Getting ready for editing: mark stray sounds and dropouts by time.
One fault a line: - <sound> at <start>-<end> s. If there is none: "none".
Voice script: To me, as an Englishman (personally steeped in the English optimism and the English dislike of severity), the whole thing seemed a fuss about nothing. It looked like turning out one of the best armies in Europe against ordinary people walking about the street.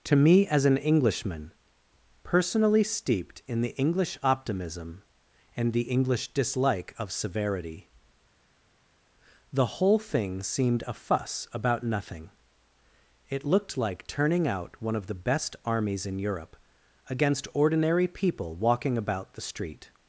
none